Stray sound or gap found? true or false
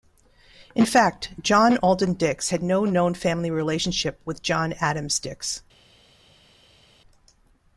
false